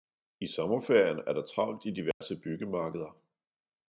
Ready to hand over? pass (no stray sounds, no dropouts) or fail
fail